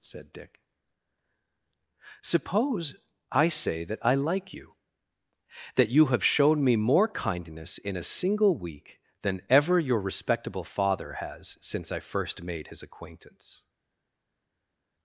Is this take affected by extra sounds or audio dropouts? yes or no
no